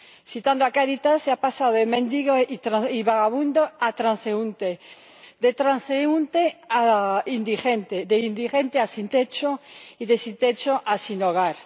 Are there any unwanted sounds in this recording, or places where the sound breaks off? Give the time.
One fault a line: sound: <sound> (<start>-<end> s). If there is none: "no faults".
no faults